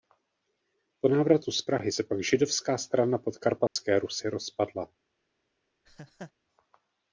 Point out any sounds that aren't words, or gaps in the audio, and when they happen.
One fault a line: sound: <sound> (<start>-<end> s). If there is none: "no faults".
sound: dropout (3.7-3.8 s)
sound: laugh (5.8-6.3 s)